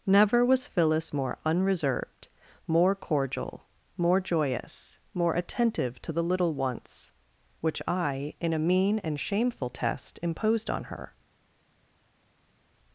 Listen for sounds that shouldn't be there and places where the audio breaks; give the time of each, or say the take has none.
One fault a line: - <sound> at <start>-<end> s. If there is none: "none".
none